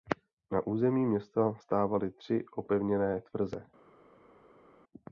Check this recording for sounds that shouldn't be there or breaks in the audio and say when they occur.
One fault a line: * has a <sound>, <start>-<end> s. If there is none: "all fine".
all fine